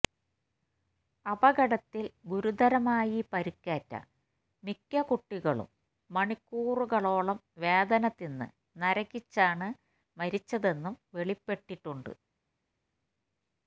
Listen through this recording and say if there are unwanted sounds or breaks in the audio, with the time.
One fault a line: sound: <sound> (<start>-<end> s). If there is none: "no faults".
no faults